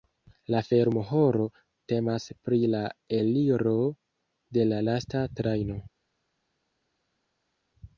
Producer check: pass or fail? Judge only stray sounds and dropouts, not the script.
pass